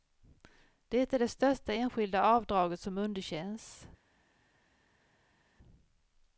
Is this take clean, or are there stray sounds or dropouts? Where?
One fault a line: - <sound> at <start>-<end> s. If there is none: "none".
none